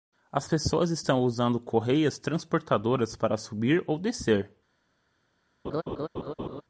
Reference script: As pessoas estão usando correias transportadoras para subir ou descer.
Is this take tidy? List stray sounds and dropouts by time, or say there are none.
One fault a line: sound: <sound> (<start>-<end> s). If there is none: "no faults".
sound: laugh (5.6-6.6 s)